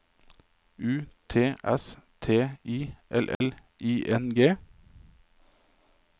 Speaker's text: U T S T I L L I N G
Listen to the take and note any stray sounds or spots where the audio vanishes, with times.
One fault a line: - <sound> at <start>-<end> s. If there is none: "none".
- dropout at 3.3-3.4 s